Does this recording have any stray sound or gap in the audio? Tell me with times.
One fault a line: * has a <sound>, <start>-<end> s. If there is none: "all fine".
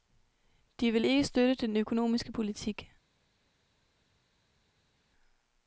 all fine